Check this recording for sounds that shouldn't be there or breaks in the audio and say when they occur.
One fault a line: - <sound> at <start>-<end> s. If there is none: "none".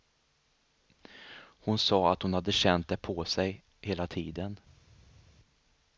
none